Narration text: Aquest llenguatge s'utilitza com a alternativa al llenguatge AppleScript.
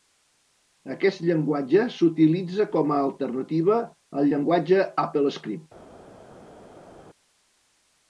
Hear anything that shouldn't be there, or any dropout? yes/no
no